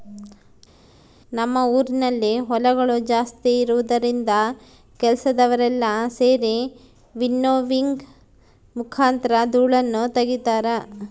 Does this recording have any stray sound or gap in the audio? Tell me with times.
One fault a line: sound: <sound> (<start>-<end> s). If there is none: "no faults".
no faults